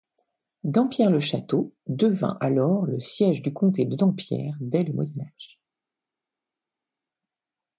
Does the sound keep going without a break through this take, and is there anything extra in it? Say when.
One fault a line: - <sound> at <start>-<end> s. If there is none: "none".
none